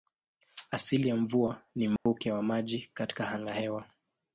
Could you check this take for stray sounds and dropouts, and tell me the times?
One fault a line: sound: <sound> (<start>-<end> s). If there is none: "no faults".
sound: dropout (2.0-2.1 s)